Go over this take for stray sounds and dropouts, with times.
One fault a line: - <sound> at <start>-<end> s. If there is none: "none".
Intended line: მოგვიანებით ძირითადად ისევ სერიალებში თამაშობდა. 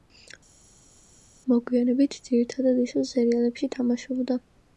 none